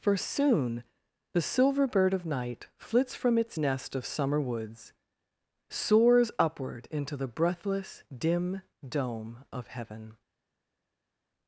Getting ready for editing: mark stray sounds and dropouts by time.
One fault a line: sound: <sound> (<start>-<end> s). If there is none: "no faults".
no faults